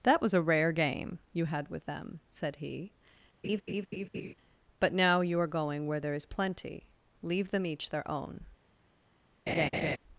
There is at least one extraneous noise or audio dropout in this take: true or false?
true